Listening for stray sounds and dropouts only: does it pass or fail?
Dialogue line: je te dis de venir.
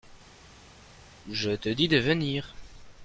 pass